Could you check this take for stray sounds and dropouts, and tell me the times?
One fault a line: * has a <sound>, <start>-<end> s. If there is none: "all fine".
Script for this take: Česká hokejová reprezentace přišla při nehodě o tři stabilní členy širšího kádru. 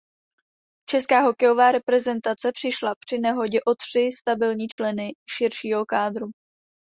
* has a dropout, 4.7-4.8 s